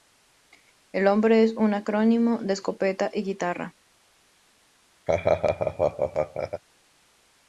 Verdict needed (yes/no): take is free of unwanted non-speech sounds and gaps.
no